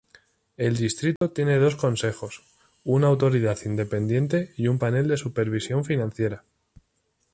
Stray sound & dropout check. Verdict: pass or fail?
fail